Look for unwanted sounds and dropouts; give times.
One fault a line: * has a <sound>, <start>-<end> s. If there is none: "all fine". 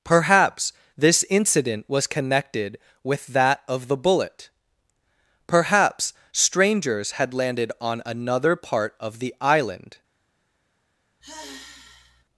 * has a sigh, 11.2-12.2 s